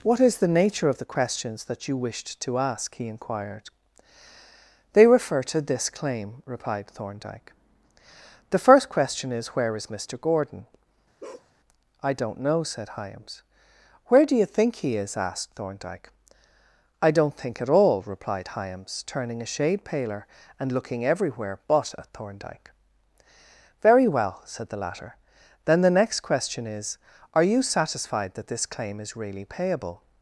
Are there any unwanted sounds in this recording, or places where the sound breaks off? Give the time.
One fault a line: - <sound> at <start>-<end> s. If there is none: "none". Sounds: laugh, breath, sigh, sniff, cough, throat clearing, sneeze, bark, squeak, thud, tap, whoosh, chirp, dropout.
- bark at 11.2-11.5 s